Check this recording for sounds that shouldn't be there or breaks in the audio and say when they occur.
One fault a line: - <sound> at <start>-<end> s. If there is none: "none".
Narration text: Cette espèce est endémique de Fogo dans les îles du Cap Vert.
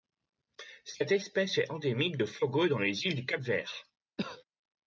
- cough at 4.2-4.4 s